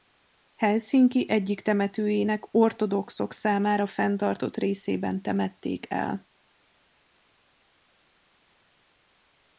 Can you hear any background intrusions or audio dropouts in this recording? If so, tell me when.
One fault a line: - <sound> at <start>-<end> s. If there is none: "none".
none